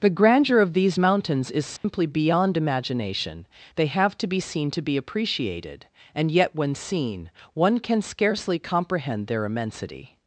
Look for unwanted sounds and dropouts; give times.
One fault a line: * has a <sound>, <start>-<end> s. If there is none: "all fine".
* has a dropout, 1.8-1.8 s